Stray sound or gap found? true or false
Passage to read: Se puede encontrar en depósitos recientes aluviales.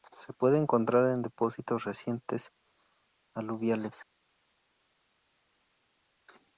false